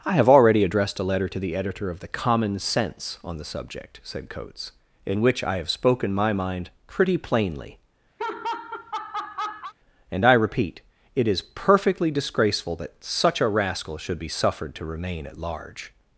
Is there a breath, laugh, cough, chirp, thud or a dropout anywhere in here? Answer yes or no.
yes